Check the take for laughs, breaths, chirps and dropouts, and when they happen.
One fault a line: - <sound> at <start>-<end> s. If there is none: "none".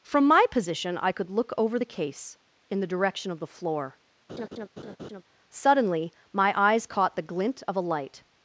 - laugh at 4.3-5.2 s